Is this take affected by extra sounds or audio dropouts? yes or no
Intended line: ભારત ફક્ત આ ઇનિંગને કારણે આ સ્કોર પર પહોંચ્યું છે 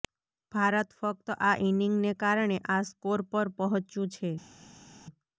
no